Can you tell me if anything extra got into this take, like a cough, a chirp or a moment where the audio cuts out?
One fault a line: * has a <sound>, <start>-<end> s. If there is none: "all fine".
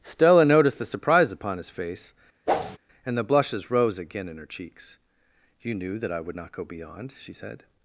* has a whoosh, 2.5-2.8 s